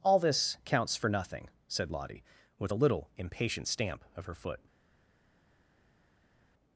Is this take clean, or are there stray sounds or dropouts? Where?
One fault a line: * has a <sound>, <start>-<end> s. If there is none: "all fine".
all fine